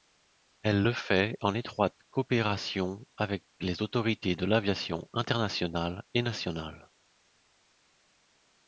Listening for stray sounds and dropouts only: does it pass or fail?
pass